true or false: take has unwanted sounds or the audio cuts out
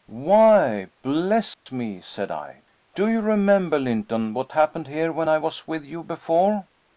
true